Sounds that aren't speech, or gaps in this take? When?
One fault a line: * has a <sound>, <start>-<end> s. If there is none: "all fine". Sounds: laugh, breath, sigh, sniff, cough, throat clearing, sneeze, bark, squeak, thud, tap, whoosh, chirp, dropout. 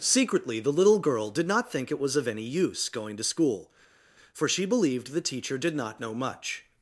all fine